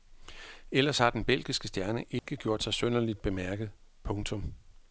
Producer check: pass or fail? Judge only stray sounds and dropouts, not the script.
fail